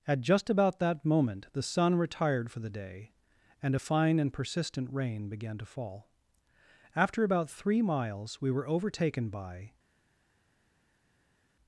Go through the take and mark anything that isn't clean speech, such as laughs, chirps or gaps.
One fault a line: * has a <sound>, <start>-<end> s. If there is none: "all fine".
all fine